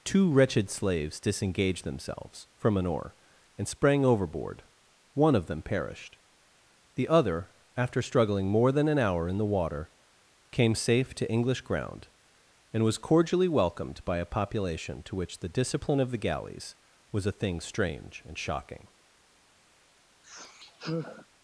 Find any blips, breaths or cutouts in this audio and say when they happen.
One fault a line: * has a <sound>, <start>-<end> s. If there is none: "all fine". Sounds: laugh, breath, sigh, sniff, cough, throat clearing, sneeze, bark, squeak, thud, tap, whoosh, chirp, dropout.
* has a sigh, 20.2-21.3 s